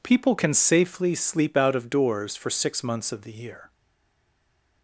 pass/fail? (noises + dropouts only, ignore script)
pass